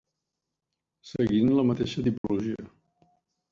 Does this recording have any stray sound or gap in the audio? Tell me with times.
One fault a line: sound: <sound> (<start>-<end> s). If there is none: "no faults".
sound: dropout (2.2-2.2 s)